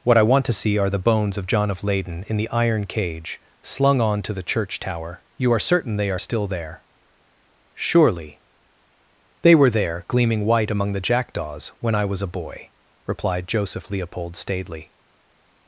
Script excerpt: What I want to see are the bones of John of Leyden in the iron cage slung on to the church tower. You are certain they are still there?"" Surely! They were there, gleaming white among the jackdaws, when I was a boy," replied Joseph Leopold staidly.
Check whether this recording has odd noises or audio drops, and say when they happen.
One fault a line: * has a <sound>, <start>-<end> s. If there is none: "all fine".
all fine